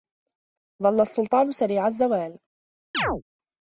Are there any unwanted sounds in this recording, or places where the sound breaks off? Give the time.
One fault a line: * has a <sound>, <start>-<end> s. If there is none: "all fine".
* has a chirp, 2.9-3.2 s